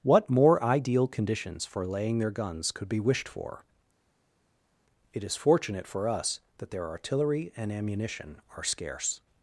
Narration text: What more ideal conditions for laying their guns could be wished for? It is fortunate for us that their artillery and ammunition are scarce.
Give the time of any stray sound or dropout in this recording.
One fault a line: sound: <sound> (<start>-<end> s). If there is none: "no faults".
no faults